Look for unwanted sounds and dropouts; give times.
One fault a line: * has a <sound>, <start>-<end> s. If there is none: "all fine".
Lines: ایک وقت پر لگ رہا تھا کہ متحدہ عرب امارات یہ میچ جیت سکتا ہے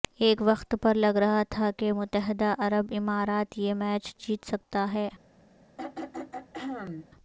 * has a throat clearing, 5.8-7.1 s